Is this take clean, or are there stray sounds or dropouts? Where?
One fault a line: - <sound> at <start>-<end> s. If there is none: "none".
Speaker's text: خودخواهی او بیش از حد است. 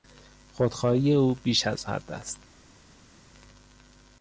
none